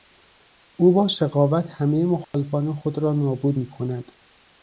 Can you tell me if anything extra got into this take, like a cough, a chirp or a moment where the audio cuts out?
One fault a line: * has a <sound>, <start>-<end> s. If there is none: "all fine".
* has a dropout, 2.2-2.3 s